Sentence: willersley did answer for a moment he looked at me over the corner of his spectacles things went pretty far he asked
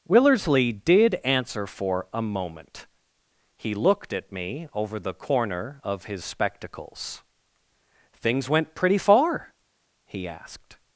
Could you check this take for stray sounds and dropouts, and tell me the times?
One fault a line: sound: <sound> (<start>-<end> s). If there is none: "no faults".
no faults